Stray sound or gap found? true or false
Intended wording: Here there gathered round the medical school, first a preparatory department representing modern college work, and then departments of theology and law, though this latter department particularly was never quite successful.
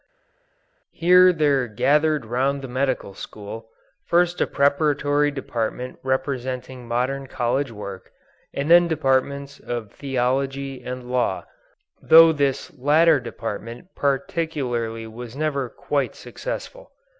false